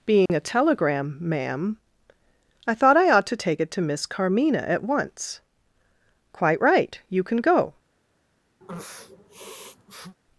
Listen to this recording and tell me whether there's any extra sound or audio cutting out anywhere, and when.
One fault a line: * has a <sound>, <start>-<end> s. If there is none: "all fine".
* has a dropout, 0.3-0.3 s
* has a sniff, 8.6-10.2 s